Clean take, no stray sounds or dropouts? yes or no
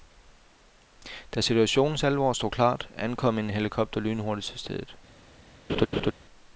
no